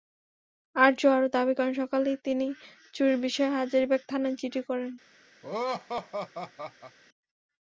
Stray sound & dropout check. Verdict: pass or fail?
fail